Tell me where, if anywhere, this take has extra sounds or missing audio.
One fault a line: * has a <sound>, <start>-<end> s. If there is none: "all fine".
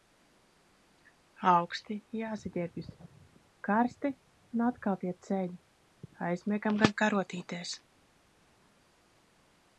all fine